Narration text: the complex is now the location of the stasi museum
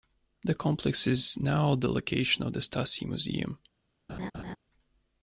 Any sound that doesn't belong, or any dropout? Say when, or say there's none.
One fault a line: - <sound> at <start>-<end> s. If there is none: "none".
- laugh at 4.1-4.6 s